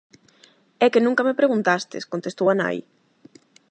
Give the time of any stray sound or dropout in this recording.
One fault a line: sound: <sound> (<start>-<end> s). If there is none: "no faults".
no faults